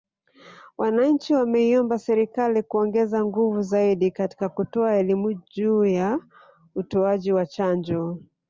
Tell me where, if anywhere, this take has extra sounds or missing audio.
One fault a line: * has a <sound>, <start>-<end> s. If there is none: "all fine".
all fine